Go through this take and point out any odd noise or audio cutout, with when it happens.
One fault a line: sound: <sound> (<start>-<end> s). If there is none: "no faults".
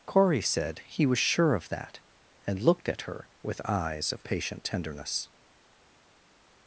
no faults